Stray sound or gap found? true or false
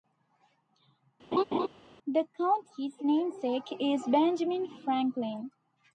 true